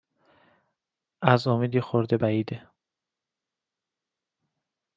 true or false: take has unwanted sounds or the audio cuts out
false